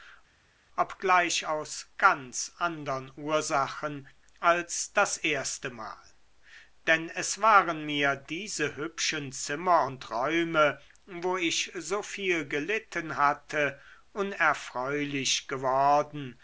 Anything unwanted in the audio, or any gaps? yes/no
no